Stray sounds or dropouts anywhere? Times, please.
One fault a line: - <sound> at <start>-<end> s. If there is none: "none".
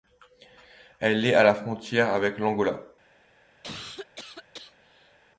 - cough at 3.6-5.2 s